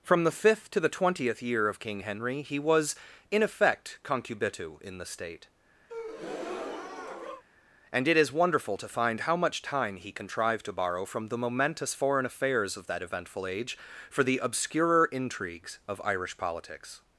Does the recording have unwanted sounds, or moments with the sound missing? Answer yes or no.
yes